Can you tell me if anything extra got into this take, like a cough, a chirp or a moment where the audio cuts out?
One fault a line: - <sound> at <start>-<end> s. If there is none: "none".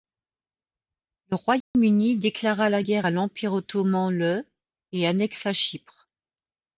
- dropout at 1.6-1.7 s